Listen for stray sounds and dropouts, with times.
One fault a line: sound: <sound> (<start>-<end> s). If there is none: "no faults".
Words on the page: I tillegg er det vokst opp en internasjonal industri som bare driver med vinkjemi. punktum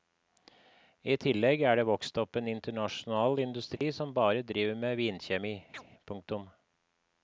sound: dropout (3.8-3.8 s)
sound: chirp (5.7-5.8 s)